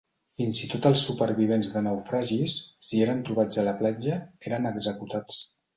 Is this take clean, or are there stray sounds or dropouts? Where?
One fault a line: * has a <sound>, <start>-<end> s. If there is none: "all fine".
all fine